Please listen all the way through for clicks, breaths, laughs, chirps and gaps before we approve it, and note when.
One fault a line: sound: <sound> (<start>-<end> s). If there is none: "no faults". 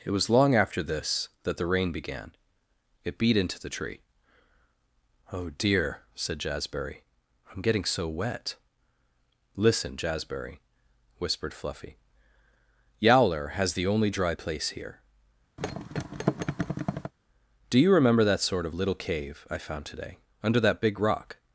sound: thud (15.6-17.1 s)